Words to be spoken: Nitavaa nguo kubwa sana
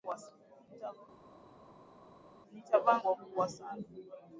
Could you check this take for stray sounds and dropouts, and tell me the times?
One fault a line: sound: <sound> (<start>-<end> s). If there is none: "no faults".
no faults